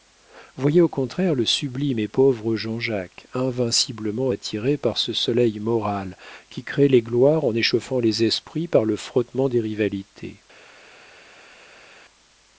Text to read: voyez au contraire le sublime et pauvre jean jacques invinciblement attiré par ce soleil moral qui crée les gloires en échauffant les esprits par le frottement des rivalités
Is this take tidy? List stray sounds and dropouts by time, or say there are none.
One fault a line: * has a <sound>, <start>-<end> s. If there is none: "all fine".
all fine